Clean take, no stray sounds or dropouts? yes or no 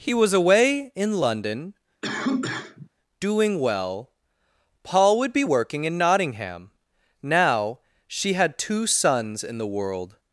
no